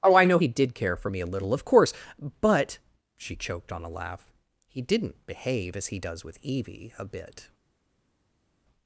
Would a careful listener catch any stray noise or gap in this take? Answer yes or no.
no